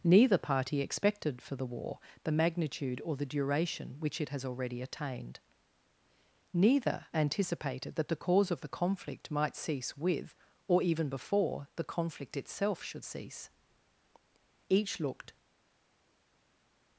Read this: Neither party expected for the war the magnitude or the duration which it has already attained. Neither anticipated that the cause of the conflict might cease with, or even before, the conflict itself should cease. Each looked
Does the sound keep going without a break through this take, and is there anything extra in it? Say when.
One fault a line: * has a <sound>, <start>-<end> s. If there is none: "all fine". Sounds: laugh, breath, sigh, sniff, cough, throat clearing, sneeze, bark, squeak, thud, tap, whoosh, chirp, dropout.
all fine